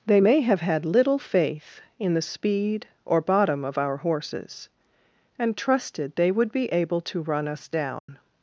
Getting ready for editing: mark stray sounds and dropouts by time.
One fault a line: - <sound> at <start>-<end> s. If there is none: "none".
- dropout at 8.0-8.1 s